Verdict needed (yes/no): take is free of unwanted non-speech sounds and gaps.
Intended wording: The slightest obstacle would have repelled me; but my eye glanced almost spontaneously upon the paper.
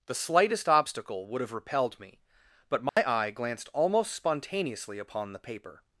no